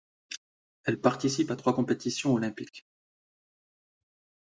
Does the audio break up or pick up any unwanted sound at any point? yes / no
no